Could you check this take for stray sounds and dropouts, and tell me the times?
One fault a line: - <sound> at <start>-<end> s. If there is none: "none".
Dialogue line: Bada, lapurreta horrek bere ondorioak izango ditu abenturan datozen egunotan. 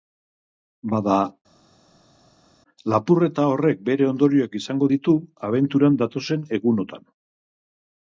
none